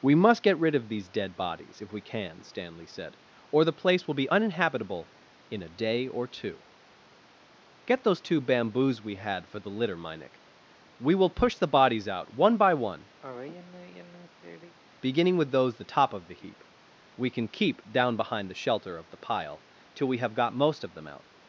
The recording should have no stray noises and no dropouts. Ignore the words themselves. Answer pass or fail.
fail